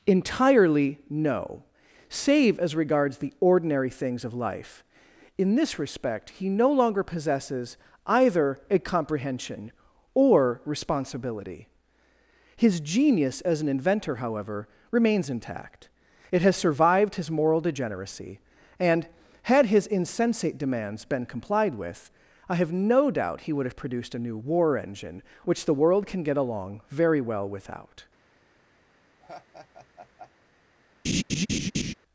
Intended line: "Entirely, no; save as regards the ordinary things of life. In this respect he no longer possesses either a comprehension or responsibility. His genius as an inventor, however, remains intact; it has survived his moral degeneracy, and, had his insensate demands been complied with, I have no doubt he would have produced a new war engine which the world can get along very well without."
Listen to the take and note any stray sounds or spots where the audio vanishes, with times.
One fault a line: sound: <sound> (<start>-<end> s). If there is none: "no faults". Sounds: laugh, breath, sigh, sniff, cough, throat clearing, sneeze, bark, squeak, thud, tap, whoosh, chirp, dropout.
sound: laugh (29.2-30.3 s)
sound: laugh (31.0-31.9 s)